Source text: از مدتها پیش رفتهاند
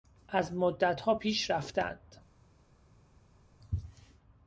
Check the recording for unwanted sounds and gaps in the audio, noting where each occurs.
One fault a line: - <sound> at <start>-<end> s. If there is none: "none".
none